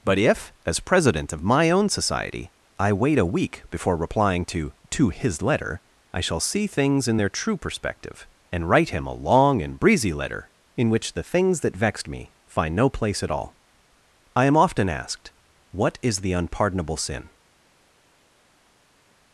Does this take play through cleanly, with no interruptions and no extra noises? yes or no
yes